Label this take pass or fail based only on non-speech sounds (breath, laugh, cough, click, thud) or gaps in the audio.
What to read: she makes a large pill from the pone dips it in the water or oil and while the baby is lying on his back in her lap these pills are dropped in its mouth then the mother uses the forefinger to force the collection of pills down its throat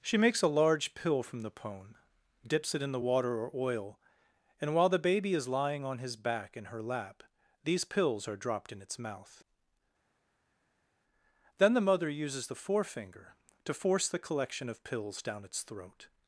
pass